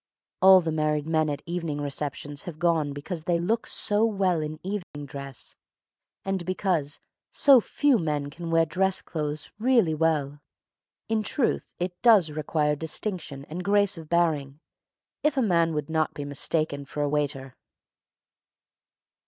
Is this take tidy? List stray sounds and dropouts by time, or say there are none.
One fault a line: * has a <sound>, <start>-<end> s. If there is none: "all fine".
* has a dropout, 4.8-4.9 s